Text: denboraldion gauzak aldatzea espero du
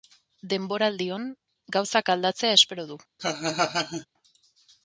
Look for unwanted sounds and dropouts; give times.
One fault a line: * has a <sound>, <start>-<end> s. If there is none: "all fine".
* has a laugh, 3.2-4.1 s